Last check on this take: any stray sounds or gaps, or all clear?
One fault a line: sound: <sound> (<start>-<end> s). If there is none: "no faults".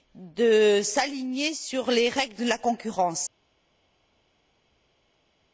no faults